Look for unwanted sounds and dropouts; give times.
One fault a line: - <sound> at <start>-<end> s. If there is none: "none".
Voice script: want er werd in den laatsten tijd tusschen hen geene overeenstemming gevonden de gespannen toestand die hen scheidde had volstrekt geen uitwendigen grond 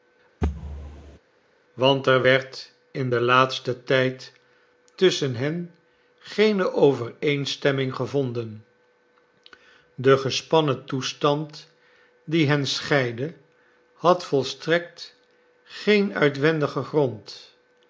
- thud at 0.4-1.2 s